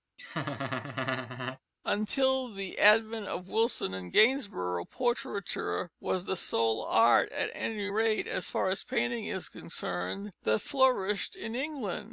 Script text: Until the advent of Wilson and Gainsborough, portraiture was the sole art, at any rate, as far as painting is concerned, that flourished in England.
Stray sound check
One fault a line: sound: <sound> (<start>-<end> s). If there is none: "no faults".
sound: laugh (0.2-1.6 s)